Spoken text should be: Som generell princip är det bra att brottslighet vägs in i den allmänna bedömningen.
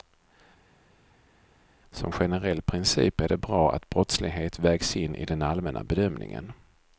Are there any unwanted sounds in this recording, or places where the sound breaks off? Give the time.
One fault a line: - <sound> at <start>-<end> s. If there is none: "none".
none